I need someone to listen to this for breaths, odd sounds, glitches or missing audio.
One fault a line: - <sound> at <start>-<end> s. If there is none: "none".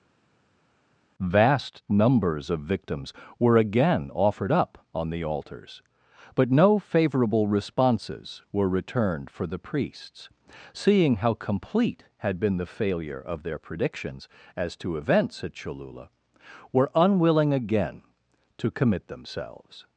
none